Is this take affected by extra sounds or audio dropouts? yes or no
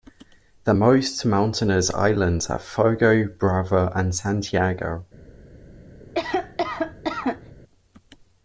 yes